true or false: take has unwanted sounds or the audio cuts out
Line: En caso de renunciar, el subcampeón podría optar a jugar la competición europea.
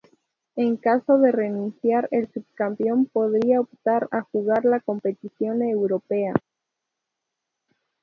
false